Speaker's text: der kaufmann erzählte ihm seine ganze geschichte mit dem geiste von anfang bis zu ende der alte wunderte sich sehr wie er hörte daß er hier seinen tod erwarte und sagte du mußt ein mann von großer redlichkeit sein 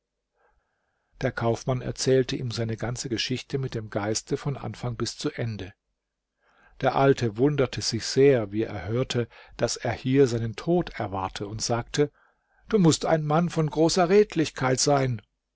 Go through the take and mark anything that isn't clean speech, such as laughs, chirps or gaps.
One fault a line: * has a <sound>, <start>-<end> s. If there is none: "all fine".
all fine